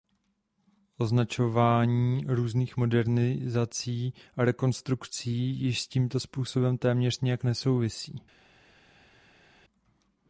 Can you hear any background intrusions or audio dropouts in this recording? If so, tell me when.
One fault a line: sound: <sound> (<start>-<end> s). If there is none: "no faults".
no faults